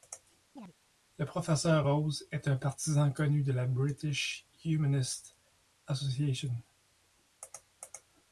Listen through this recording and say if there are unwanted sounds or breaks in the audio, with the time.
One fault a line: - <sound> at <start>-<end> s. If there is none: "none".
- chirp at 0.6-0.7 s